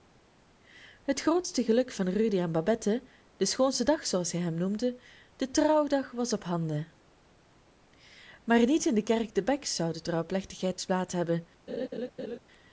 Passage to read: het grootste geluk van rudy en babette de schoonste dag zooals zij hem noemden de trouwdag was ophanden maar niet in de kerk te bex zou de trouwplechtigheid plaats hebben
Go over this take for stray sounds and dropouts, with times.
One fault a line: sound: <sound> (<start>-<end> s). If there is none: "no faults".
sound: laugh (11.7-12.4 s)